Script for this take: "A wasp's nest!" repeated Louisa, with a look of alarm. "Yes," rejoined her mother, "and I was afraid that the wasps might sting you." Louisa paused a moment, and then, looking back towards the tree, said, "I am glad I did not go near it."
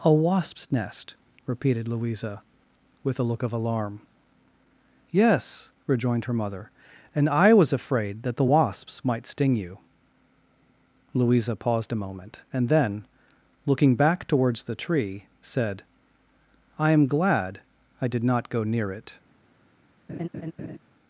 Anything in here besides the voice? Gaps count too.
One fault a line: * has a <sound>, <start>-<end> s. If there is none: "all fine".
* has a laugh, 20.1-20.8 s